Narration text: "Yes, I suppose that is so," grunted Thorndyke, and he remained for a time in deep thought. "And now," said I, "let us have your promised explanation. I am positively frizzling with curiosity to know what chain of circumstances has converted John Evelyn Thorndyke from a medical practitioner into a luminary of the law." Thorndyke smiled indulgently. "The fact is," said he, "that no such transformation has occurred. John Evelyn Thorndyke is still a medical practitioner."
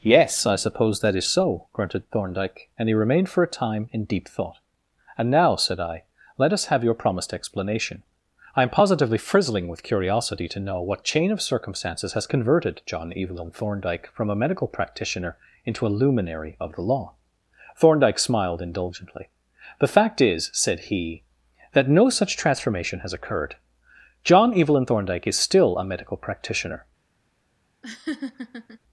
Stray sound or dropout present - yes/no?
yes